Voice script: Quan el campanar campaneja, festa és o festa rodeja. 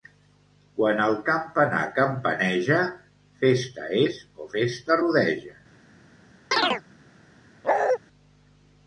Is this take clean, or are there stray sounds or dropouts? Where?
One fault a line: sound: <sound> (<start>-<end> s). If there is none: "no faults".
sound: chirp (6.5-6.8 s)
sound: bark (7.6-8.0 s)